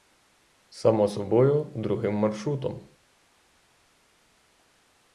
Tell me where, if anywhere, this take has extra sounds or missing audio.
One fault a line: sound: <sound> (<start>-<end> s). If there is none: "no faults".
no faults